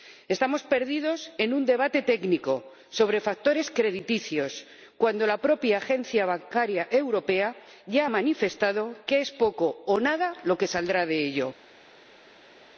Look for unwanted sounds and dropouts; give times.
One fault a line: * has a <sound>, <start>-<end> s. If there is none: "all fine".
all fine